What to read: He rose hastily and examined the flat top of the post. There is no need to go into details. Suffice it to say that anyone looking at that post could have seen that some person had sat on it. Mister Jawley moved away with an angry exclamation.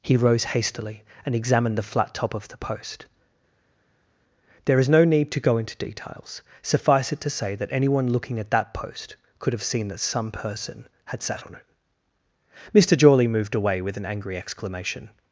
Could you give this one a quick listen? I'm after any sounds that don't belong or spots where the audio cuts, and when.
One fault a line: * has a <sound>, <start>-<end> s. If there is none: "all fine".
all fine